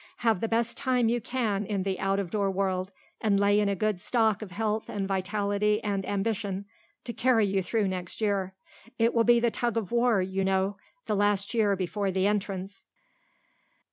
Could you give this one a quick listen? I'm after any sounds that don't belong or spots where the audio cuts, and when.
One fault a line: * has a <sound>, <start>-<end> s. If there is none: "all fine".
all fine